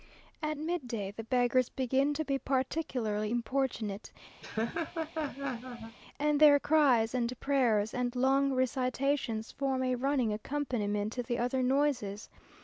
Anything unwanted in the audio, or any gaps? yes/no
yes